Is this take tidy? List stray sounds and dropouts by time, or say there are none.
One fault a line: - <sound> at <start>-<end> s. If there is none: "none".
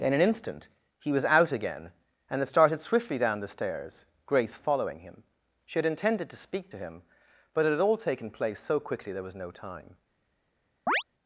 - chirp at 10.9-11.0 s